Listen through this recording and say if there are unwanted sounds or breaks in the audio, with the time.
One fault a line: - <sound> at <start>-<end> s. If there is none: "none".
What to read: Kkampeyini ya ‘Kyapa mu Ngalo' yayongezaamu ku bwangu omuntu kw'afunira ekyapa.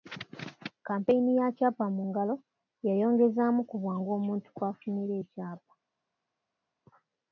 none